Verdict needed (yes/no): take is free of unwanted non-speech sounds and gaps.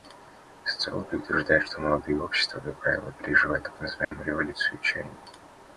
no